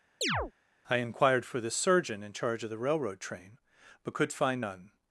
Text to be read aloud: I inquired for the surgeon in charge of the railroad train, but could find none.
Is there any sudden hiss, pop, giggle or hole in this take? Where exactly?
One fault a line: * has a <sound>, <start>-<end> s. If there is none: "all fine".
* has a chirp, 0.2-0.5 s